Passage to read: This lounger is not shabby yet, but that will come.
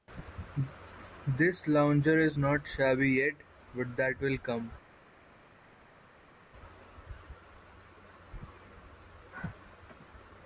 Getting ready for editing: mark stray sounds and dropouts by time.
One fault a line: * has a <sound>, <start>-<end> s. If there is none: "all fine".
all fine